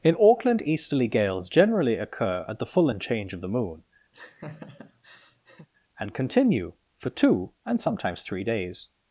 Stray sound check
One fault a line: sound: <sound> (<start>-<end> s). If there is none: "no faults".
sound: laugh (4.1-5.7 s)